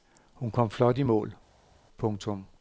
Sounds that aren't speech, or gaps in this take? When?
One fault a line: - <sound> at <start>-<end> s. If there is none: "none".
none